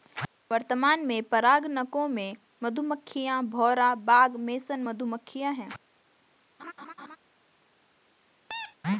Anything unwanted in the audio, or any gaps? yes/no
yes